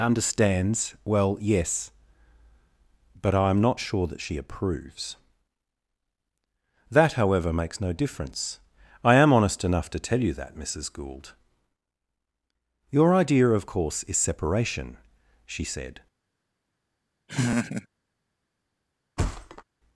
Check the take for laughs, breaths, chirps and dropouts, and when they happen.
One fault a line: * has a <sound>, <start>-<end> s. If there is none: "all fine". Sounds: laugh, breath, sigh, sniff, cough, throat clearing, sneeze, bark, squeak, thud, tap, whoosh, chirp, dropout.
* has a laugh, 17.3-17.9 s
* has a thud, 19.2-19.6 s